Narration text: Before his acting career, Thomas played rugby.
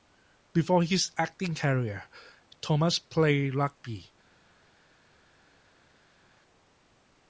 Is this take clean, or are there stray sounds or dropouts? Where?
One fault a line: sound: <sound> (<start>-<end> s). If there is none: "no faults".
no faults